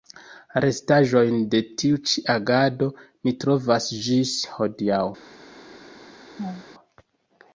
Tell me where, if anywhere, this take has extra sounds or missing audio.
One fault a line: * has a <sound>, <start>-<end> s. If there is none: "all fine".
* has a laugh, 6.4-6.7 s